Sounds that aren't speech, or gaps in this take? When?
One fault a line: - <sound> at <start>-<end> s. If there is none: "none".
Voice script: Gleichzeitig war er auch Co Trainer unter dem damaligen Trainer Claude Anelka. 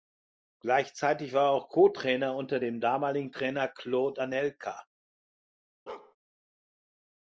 - bark at 5.9-6.2 s